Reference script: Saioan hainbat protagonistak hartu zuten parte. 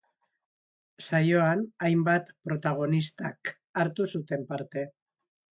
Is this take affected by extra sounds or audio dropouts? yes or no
no